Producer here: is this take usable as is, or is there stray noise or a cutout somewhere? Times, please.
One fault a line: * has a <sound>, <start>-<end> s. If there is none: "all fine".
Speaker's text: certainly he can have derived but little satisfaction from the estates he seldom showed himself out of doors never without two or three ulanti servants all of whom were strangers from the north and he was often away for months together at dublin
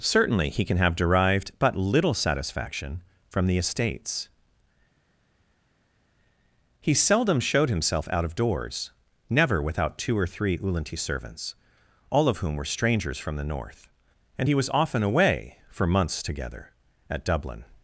all fine